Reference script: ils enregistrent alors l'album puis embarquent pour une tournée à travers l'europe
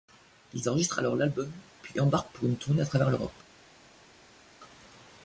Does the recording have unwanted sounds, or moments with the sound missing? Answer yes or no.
no